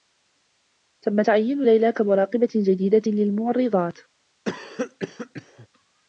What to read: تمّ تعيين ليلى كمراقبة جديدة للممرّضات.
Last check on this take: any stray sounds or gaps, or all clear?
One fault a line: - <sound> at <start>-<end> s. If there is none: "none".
- cough at 4.5-5.7 s